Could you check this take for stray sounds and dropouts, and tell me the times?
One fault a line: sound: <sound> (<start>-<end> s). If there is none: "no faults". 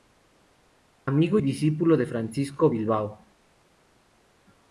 no faults